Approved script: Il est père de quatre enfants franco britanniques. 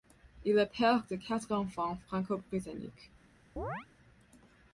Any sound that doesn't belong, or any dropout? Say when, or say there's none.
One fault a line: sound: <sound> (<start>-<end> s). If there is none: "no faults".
sound: chirp (3.6-3.9 s)